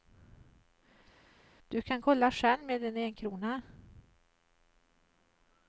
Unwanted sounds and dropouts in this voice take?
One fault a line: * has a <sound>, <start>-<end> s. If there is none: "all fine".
all fine